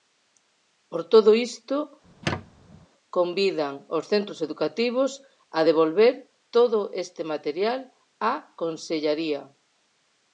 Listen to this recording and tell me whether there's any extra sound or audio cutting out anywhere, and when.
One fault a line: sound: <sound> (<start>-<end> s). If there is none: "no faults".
sound: squeak (2.0-2.9 s)